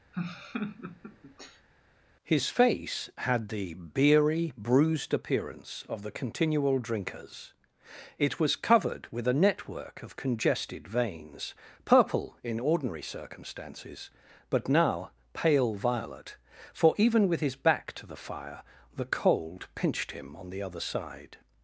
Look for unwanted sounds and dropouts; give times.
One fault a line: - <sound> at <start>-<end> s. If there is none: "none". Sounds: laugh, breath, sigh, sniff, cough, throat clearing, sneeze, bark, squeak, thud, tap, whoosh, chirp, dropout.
- laugh at 0.1-1.7 s